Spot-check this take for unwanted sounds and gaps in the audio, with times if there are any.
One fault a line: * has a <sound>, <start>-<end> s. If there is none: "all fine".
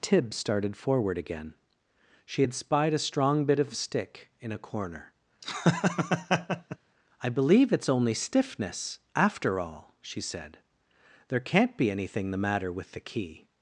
* has a laugh, 5.4-6.8 s